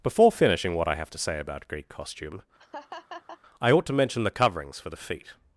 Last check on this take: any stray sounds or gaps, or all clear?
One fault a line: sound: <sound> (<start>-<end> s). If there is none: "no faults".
sound: laugh (2.6-3.4 s)